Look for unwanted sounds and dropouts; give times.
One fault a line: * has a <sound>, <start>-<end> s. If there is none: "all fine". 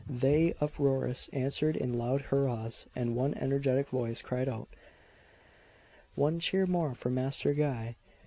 all fine